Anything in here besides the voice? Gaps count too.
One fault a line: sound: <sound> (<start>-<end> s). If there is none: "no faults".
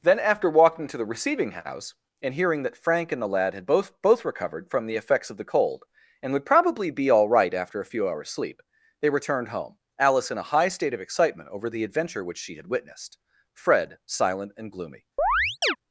sound: chirp (15.2-15.8 s)